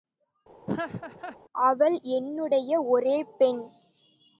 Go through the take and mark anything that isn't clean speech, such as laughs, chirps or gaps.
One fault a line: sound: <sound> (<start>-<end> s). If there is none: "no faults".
sound: laugh (0.7-1.4 s)